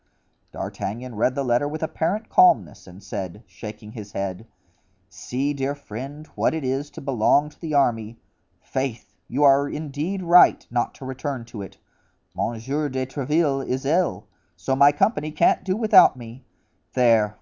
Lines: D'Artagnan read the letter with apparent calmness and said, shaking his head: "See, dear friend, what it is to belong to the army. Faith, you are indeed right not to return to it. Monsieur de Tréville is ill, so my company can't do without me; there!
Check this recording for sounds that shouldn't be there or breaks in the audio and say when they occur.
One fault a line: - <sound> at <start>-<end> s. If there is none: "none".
none